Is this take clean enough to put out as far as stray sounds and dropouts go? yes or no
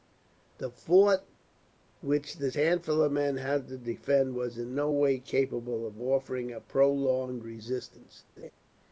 no